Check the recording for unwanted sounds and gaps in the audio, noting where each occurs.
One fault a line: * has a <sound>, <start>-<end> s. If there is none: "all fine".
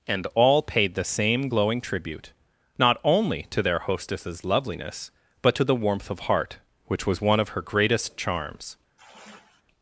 * has a sigh, 9.0-9.6 s